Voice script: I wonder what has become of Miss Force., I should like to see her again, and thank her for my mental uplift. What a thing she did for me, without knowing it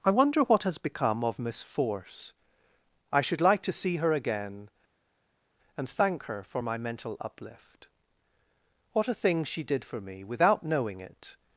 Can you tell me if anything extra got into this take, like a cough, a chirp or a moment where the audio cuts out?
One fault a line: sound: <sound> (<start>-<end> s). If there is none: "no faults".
no faults